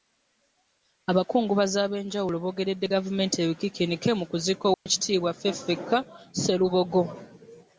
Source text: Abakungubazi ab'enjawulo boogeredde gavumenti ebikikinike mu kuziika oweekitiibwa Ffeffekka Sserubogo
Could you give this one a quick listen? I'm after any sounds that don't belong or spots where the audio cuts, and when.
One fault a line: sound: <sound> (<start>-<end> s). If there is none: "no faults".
sound: dropout (4.7-4.9 s)